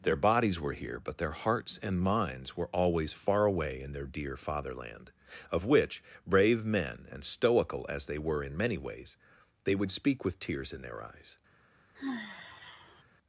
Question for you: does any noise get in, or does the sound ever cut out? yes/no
yes